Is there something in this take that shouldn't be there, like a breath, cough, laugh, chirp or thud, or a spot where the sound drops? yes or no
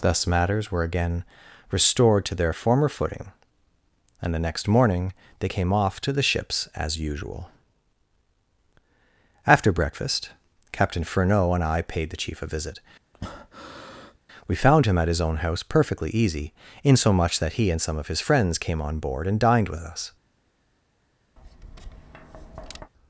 yes